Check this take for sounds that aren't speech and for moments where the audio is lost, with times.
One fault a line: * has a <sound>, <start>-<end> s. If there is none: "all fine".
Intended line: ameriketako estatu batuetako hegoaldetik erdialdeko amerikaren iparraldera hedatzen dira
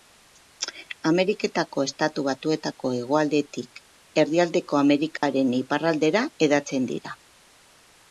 * has a dropout, 5.2-5.2 s